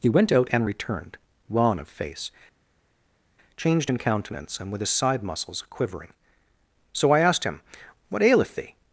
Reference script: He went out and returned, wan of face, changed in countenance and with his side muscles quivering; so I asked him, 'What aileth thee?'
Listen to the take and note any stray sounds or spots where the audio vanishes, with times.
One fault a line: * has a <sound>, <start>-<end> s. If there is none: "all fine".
all fine